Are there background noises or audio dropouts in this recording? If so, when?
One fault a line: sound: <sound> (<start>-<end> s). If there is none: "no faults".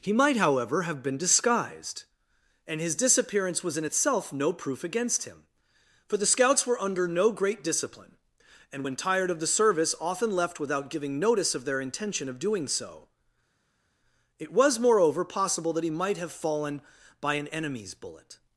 no faults